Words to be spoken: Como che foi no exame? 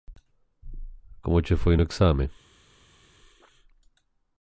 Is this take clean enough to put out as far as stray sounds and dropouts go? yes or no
yes